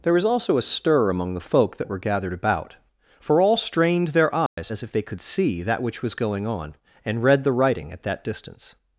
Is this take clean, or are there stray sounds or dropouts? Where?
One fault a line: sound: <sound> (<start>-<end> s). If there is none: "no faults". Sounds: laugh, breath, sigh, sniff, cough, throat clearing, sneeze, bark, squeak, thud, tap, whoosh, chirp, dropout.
sound: dropout (4.5-4.6 s)